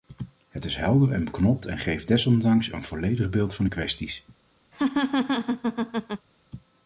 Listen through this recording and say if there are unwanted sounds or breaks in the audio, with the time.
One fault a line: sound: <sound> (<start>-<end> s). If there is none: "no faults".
sound: laugh (4.7-6.3 s)